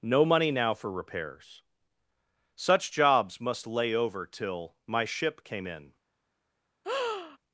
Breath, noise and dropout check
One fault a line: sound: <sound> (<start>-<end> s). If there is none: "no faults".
sound: breath (6.8-7.4 s)